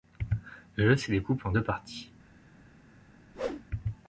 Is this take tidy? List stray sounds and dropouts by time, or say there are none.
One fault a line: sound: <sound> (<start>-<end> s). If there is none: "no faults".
sound: whoosh (3.3-3.6 s)